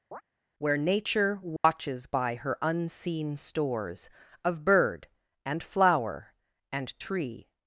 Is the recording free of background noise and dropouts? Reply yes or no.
no